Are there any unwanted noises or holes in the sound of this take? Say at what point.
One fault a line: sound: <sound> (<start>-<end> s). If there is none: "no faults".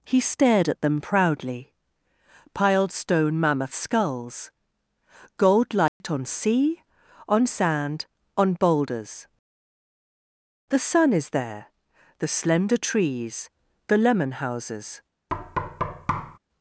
sound: dropout (5.9-6.0 s)
sound: thud (15.3-16.4 s)